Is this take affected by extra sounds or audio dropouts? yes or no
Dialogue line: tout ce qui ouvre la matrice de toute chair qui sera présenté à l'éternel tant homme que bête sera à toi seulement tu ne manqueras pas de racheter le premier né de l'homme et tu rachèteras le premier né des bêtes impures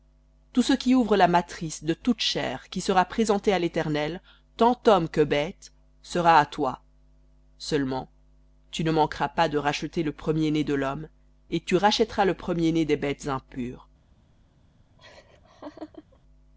yes